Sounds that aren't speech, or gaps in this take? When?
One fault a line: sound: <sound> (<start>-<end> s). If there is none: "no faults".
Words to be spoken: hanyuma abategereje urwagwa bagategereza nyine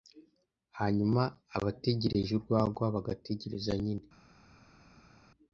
no faults